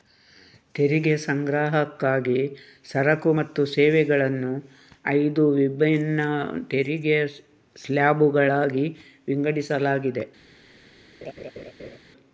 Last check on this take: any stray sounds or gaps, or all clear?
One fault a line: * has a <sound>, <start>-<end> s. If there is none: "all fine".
* has a laugh, 11.2-12.0 s